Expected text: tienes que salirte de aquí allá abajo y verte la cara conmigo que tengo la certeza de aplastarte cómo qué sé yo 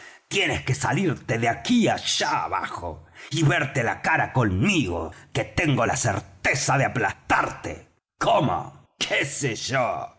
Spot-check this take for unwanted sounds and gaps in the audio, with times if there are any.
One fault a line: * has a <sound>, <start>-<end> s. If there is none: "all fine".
all fine